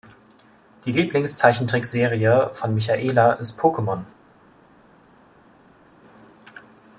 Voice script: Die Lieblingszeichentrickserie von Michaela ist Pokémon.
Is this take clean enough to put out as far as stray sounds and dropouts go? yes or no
yes